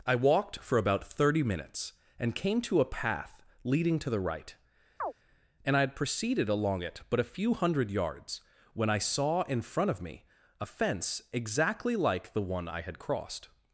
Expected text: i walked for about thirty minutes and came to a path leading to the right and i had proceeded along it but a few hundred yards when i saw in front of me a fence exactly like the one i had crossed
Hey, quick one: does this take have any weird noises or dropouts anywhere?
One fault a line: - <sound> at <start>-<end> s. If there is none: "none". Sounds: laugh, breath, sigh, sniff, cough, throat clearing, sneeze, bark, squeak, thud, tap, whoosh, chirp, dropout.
- chirp at 5.0-5.1 s